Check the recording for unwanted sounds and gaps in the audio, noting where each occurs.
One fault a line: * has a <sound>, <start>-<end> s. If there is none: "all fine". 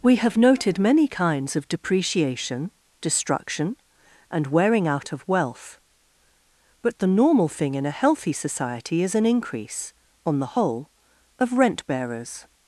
all fine